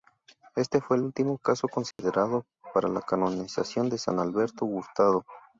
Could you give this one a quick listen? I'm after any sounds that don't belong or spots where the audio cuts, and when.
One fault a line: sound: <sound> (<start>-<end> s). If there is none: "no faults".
sound: dropout (1.9-2.0 s)